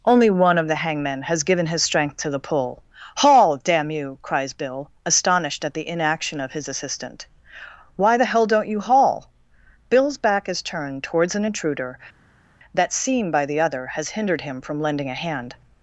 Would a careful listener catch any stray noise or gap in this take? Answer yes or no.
no